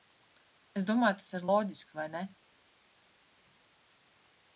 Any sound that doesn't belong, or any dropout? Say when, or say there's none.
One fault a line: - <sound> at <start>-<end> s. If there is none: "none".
none